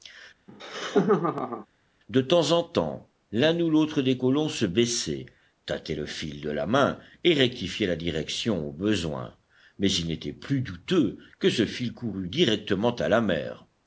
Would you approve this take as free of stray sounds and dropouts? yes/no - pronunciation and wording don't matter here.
no